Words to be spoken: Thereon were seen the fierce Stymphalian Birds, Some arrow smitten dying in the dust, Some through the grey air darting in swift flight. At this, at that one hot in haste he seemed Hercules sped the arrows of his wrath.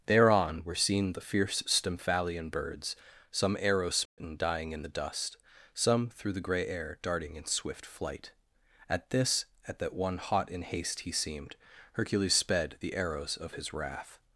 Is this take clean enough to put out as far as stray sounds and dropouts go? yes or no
no